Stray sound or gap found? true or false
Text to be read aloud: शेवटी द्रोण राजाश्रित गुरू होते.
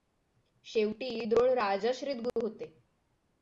true